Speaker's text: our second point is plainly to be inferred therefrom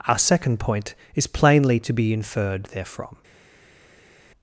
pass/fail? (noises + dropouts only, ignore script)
pass